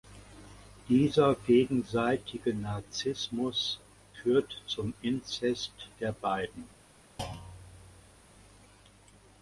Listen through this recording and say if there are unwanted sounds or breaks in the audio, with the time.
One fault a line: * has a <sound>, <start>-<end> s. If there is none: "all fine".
* has a thud, 7.2-8.3 s